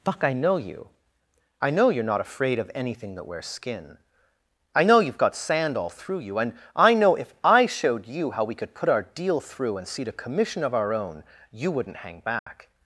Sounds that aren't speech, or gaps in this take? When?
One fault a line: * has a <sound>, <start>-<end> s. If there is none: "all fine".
* has a dropout, 12.4-12.5 s